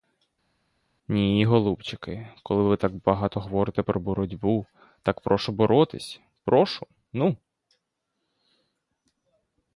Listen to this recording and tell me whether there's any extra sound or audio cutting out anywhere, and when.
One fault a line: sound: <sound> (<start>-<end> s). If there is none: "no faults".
no faults